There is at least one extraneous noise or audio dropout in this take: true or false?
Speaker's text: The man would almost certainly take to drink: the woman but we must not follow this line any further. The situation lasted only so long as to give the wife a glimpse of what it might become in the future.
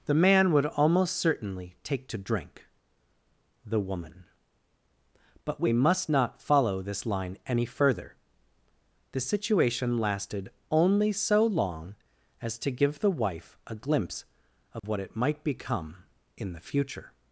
true